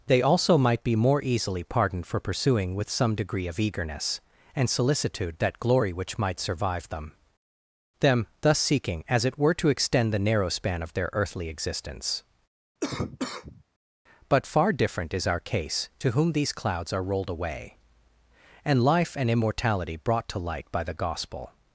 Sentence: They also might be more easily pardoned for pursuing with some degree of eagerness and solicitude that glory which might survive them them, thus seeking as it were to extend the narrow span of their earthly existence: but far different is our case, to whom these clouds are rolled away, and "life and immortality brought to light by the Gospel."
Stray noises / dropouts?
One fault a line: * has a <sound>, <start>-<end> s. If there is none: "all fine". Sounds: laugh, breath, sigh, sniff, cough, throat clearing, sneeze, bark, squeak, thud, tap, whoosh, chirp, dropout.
* has a cough, 12.8-13.6 s